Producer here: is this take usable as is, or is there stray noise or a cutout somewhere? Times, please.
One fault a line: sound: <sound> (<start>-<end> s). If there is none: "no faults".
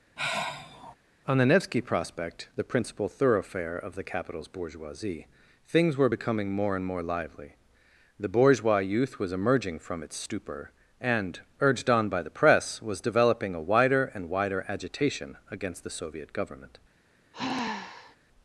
sound: sigh (0.2-1.0 s)
sound: sigh (17.3-18.2 s)